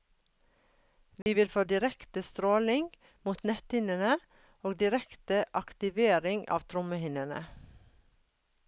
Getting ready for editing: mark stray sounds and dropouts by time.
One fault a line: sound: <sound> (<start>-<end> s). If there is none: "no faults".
sound: dropout (1.2-1.3 s)